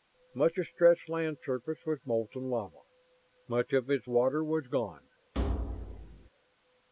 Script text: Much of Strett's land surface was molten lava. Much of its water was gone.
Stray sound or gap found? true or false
true